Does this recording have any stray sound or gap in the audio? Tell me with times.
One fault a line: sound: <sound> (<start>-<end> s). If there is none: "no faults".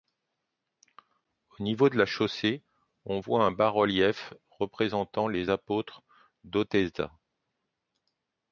no faults